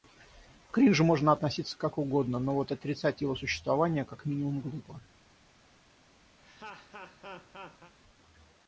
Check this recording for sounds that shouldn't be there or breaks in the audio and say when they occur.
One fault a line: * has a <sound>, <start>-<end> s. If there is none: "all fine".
* has a laugh, 6.4-7.9 s